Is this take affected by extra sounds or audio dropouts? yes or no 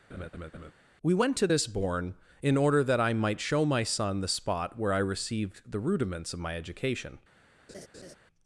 yes